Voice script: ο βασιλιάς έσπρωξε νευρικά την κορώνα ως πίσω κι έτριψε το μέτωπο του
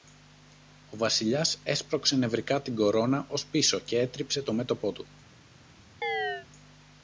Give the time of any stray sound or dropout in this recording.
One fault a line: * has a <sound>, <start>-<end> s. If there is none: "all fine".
* has a chirp, 6.0-6.5 s